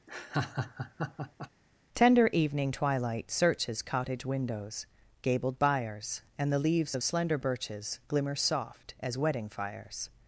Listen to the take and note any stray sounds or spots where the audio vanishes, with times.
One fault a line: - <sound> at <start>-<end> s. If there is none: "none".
- laugh at 0.1-1.5 s